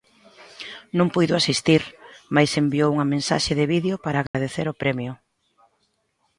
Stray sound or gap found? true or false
true